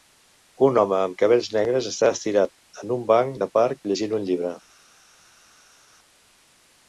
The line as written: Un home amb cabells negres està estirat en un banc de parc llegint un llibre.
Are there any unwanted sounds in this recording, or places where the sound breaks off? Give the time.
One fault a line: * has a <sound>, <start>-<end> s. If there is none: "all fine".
all fine